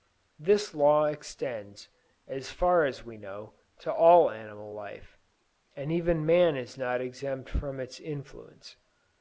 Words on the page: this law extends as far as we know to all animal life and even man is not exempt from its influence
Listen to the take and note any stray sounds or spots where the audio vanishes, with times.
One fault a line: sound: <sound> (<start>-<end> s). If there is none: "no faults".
no faults